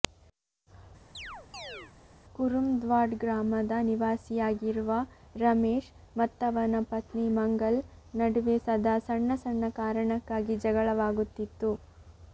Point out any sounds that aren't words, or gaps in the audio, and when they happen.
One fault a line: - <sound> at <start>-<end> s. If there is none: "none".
- chirp at 1.1-1.9 s